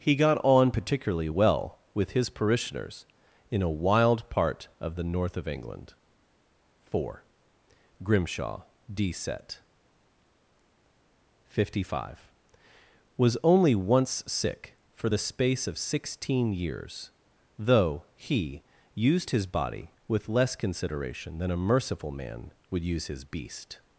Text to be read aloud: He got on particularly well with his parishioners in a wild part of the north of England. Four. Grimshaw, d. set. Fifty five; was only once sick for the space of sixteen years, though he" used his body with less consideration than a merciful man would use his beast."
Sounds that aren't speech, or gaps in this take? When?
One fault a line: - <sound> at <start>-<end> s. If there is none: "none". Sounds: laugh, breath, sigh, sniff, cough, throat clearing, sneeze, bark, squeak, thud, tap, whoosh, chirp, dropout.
none